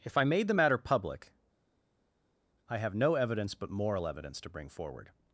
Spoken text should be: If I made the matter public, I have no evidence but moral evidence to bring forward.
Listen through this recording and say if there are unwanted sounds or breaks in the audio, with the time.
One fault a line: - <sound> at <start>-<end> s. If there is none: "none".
none